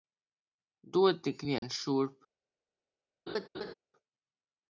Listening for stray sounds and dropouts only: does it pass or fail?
fail